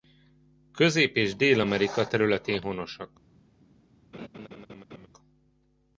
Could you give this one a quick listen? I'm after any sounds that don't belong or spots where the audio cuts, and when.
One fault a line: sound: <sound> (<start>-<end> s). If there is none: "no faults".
sound: laugh (4.1-5.1 s)